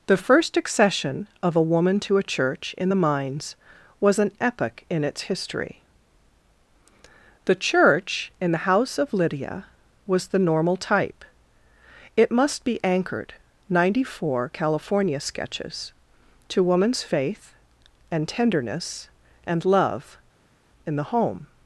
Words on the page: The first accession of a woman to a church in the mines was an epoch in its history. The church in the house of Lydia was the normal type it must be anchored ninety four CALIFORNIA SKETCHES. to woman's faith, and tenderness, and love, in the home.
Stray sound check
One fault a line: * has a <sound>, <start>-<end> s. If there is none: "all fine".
all fine